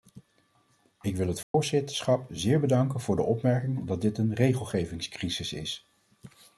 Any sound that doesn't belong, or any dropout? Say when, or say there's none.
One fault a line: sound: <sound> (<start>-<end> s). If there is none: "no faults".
sound: dropout (1.4-1.5 s)